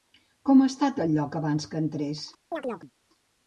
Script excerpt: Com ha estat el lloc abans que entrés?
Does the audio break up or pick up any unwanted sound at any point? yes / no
yes